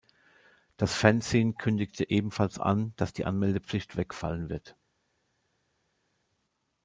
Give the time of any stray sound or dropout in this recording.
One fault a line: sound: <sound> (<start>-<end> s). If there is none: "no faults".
no faults